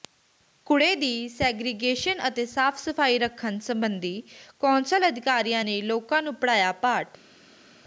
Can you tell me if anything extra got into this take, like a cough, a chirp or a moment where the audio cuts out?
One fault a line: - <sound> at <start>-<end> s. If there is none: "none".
none